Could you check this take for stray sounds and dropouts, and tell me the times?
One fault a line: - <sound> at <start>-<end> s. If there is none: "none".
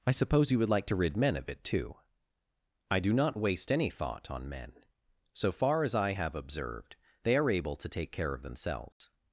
- dropout at 8.9-9.0 s